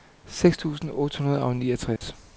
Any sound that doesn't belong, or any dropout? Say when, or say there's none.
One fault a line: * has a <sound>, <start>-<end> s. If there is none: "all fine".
* has a dropout, 2.0-2.0 s